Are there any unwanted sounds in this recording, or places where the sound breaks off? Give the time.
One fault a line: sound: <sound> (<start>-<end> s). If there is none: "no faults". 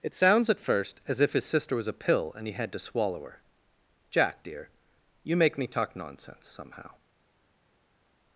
no faults